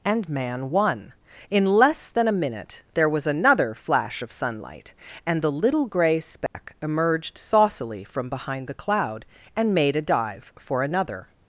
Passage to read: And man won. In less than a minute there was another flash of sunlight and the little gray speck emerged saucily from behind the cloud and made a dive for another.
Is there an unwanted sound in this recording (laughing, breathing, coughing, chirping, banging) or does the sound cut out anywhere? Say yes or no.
yes